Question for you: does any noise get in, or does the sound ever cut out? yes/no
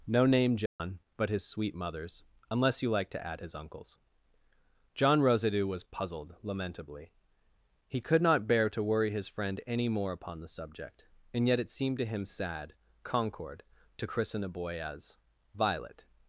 yes